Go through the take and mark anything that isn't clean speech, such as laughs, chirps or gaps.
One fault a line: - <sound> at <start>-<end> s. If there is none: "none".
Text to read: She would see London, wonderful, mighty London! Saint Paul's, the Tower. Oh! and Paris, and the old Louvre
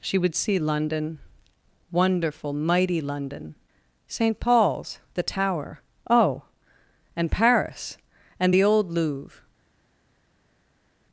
none